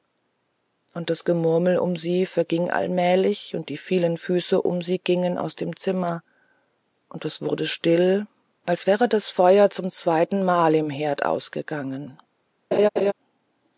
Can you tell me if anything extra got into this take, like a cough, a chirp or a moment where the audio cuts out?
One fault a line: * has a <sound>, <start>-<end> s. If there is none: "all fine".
* has a laugh, 12.7-13.1 s